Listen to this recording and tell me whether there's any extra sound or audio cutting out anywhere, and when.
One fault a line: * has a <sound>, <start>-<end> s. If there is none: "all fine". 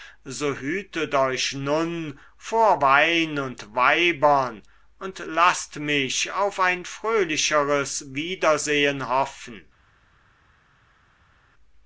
all fine